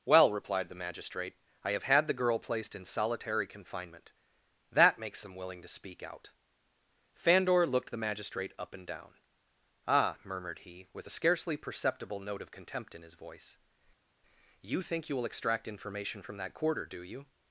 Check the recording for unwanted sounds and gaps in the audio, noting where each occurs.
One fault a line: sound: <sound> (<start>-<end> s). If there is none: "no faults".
no faults